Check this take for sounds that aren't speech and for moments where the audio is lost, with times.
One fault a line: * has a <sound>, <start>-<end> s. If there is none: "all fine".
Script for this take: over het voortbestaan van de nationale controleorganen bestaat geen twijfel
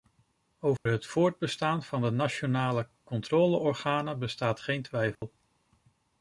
* has a dropout, 0.8-0.9 s
* has a dropout, 5.2-5.2 s